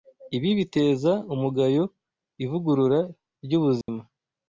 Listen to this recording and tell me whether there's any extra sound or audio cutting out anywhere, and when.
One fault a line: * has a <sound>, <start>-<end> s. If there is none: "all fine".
* has a dropout, 3.8-3.9 s